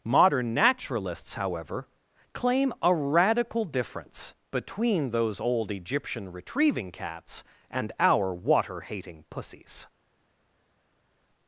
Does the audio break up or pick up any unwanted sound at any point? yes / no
no